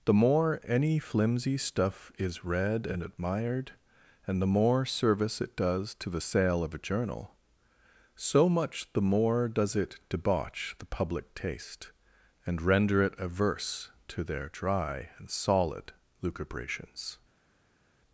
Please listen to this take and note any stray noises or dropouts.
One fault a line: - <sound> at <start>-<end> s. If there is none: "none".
none